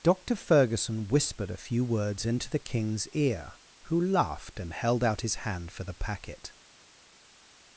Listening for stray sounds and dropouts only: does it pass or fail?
pass